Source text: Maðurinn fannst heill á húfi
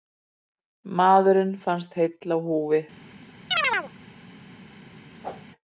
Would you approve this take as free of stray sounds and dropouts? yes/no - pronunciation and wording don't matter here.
no